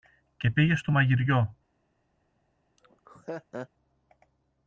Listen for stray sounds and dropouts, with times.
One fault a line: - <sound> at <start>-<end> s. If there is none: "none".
- laugh at 2.8-3.7 s